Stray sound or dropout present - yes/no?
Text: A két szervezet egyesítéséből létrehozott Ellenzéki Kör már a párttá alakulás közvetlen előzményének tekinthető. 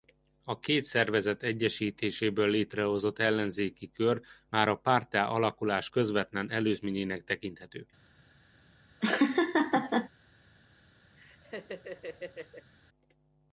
yes